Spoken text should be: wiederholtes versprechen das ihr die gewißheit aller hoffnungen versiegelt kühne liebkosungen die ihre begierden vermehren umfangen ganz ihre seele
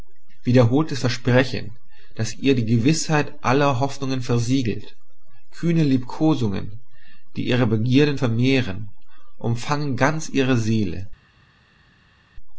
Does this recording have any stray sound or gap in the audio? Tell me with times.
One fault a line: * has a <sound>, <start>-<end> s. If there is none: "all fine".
all fine